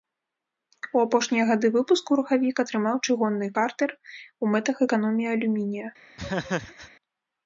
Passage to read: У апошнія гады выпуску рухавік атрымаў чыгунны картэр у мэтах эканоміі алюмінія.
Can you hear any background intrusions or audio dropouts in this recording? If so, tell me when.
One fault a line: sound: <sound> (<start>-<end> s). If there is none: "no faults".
sound: laugh (6.2-6.9 s)